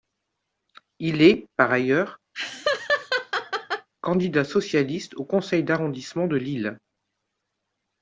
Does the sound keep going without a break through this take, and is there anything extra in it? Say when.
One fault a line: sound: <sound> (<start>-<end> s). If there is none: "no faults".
sound: laugh (2.3-3.9 s)